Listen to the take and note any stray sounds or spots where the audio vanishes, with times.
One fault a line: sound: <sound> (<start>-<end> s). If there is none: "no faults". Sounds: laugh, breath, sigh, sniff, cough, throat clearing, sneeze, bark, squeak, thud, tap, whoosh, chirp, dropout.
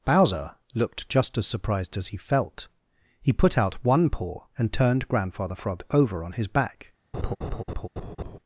sound: laugh (7.1-8.4 s)